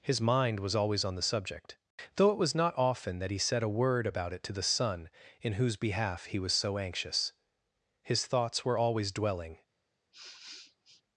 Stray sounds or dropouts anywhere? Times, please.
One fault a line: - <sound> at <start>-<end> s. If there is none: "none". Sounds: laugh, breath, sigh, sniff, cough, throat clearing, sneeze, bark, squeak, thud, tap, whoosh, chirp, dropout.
- sniff at 10.1-11.0 s